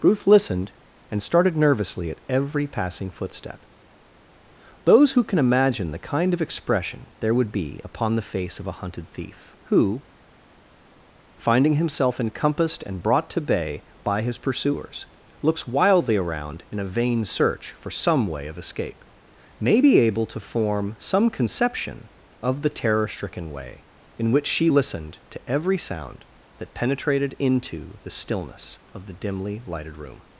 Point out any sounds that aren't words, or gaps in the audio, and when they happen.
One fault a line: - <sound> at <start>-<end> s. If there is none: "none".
none